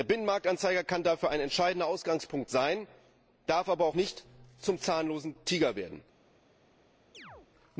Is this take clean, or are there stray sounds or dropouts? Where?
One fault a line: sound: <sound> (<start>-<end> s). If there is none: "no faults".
sound: chirp (7.1-7.5 s)